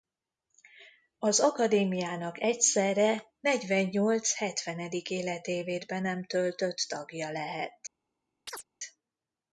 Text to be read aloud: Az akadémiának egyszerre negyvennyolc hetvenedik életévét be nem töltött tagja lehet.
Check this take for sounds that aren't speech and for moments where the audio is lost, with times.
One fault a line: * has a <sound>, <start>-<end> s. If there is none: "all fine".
* has a chirp, 8.5-8.6 s